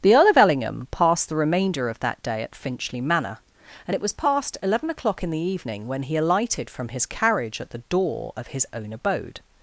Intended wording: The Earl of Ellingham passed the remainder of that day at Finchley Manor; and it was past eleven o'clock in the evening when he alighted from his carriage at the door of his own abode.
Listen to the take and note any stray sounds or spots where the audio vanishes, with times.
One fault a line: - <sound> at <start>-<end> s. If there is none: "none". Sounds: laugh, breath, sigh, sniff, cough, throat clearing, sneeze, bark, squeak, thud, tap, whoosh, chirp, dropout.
none